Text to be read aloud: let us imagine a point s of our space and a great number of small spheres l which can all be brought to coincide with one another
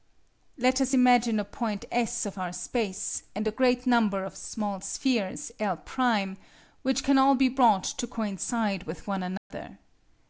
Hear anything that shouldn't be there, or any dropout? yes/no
yes